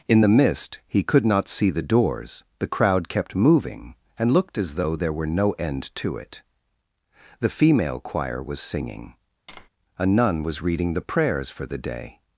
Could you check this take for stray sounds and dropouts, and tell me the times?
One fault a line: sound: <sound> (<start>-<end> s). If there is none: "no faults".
sound: tap (9.5-9.7 s)